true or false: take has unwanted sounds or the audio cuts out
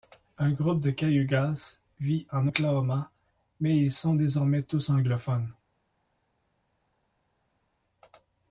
false